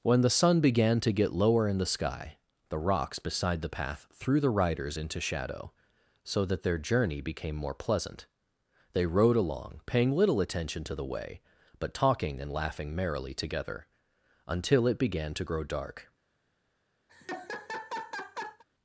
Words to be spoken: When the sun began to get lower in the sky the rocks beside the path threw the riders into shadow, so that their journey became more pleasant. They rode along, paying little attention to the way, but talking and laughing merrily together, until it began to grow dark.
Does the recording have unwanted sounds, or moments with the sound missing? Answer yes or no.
yes